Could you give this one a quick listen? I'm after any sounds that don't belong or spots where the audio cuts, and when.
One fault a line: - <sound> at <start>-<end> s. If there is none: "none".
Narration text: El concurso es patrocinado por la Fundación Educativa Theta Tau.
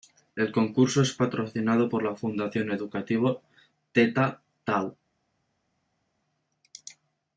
none